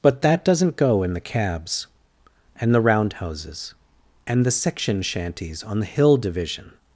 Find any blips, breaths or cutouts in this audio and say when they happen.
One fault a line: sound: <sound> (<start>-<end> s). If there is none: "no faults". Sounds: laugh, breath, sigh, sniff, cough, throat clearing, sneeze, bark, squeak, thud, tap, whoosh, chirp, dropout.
no faults